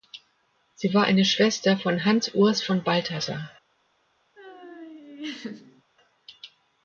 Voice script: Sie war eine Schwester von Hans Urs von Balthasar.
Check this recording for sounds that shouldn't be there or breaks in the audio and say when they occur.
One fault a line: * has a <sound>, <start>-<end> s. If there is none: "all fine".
* has a laugh, 4.4-5.8 s